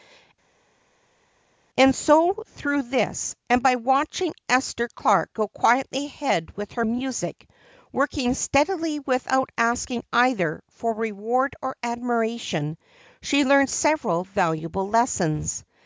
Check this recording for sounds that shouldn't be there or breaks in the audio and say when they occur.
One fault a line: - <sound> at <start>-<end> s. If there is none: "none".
none